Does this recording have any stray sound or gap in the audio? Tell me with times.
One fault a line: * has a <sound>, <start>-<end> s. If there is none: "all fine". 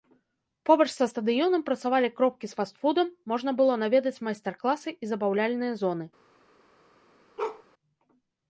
* has a bark, 7.4-7.6 s